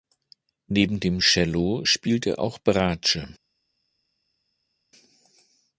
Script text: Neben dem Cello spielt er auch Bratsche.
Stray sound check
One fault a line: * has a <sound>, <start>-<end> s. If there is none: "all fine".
all fine